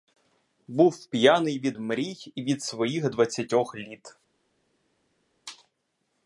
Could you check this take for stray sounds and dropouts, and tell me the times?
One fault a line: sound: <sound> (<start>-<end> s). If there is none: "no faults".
no faults